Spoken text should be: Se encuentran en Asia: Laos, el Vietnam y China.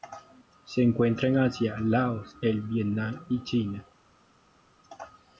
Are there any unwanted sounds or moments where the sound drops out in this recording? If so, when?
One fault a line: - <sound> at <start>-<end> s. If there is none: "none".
none